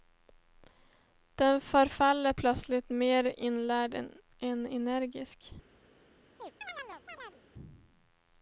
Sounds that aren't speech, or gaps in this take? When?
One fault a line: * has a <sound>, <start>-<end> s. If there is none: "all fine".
* has a chirp, 6.4-7.4 s